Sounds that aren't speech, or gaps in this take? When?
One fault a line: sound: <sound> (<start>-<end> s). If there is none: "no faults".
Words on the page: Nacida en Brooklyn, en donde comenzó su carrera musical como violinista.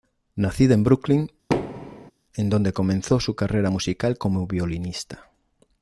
sound: thud (1.5-2.1 s)